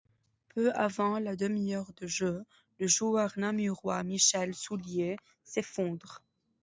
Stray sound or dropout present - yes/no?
no